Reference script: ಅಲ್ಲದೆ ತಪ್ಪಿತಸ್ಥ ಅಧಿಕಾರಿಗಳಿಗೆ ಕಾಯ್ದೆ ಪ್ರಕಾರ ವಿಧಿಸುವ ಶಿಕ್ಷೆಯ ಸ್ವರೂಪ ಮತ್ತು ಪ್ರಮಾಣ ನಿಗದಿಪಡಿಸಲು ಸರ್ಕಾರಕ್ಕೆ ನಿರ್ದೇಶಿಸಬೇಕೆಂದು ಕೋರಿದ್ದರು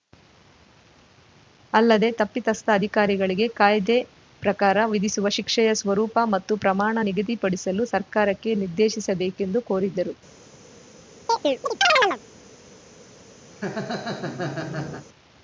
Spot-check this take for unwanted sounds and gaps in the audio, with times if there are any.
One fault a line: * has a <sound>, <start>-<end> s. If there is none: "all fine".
* has a chirp, 11.3-12.2 s
* has a laugh, 13.5-15.1 s